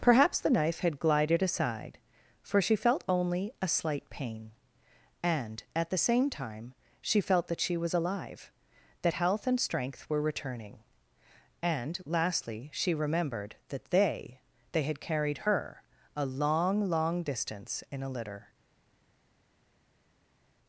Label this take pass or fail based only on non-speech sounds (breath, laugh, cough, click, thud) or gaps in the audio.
pass